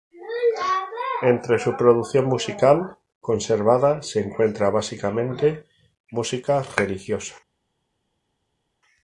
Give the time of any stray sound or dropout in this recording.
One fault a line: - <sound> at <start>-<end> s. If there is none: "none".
none